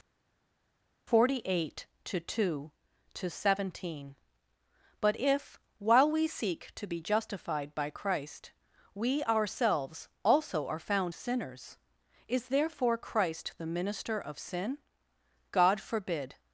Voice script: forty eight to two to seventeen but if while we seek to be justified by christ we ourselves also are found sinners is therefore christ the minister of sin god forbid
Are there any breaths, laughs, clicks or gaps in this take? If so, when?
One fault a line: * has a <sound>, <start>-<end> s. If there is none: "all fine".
all fine